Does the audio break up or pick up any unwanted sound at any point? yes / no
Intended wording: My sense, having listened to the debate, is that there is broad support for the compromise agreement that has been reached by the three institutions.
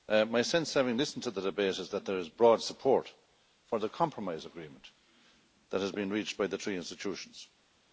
no